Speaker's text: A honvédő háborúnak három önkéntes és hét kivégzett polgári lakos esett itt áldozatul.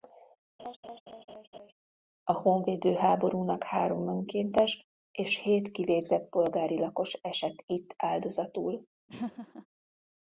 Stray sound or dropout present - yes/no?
yes